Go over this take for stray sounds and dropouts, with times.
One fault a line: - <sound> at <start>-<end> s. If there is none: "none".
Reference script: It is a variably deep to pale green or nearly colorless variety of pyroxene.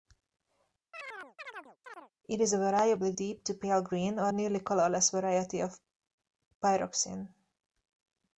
- chirp at 0.9-2.1 s